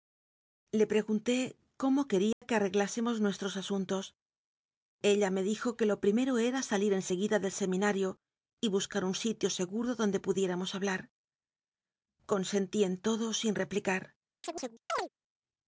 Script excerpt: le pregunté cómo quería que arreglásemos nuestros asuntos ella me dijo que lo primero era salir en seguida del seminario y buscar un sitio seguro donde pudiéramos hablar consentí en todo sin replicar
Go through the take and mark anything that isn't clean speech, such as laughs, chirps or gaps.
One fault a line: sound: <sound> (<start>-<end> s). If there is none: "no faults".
sound: dropout (2.3-2.4 s)
sound: chirp (14.4-15.1 s)